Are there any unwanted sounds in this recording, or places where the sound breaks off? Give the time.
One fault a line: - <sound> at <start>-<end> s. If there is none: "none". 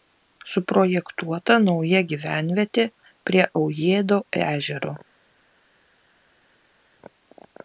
none